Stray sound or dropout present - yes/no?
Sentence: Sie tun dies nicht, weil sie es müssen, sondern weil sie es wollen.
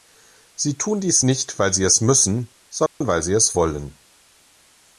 yes